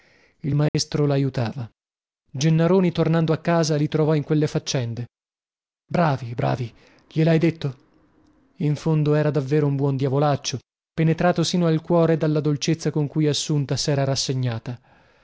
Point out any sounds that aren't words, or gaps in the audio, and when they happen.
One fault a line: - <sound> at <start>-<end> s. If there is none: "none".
- dropout at 0.7-0.7 s